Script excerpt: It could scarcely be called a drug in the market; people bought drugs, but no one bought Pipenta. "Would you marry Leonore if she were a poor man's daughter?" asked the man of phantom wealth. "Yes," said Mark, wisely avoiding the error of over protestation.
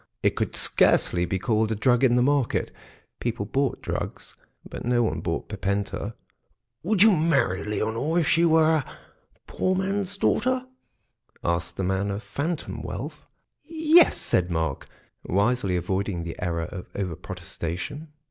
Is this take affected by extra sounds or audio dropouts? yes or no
no